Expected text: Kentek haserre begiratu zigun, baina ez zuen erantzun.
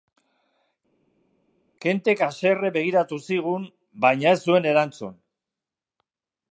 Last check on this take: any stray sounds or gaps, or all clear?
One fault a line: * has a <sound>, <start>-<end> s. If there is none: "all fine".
all fine